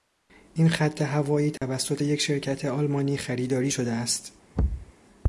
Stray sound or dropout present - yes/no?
yes